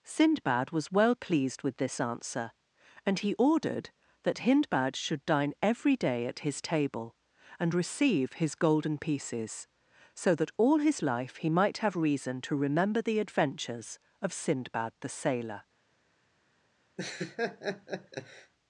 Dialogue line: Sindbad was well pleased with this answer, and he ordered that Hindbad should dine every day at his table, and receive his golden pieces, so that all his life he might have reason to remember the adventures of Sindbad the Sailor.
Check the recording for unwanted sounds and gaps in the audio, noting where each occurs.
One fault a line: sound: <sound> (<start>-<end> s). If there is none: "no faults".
sound: laugh (17.0-18.5 s)